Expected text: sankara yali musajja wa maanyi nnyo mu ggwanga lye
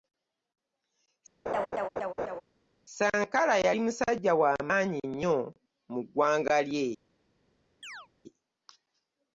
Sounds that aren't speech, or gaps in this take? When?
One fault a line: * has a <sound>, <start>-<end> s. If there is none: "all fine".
* has a laugh, 1.5-2.4 s
* has a chirp, 7.8-8.1 s